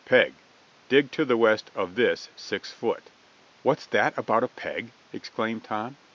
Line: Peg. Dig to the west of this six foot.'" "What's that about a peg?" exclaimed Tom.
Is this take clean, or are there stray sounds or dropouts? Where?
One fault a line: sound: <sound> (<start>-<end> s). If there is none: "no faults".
no faults